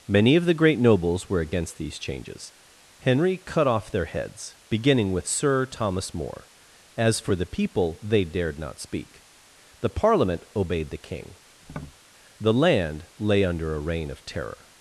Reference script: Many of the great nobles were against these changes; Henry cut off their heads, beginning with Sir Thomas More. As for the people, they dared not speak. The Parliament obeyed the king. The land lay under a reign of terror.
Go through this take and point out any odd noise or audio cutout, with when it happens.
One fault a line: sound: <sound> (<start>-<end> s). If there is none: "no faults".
sound: tap (11.6-12.0 s)